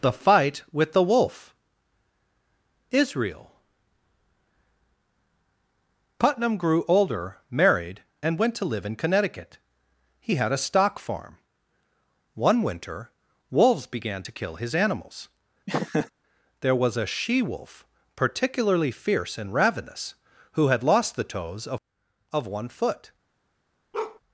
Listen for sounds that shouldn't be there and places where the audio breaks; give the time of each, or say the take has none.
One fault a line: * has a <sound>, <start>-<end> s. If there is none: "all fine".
* has a laugh, 15.7-16.1 s
* has a bark, 23.9-24.2 s